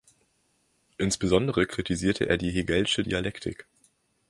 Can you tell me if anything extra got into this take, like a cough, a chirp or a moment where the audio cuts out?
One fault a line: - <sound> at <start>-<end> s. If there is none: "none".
none